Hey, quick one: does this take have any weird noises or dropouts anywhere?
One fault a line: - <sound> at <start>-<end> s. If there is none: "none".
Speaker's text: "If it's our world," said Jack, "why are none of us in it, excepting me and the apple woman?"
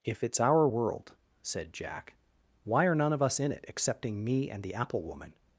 none